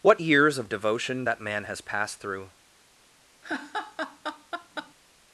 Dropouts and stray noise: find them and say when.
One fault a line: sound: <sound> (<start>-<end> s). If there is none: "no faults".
sound: laugh (3.4-4.9 s)